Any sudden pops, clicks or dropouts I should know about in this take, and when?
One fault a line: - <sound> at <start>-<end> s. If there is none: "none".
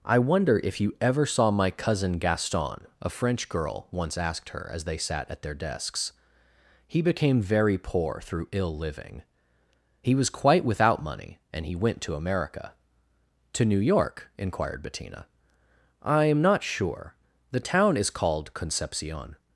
none